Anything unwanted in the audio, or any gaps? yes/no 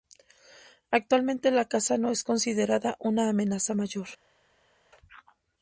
no